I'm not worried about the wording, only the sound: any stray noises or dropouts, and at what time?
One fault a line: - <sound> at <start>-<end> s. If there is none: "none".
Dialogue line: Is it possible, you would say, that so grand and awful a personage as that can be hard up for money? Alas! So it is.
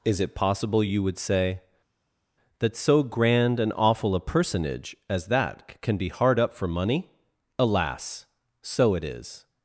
none